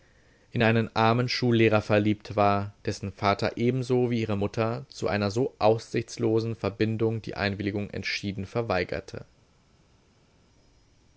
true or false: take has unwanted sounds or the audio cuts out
false